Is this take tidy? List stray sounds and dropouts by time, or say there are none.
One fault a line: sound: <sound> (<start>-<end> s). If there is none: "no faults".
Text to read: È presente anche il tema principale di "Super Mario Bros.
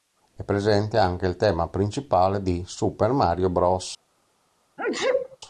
sound: sneeze (4.8-5.4 s)